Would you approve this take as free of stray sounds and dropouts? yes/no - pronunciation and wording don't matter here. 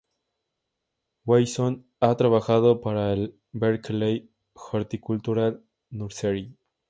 yes